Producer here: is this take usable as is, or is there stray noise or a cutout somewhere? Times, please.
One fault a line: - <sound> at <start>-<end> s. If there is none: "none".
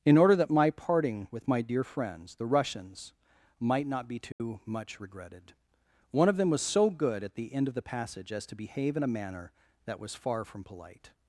- dropout at 4.3-4.4 s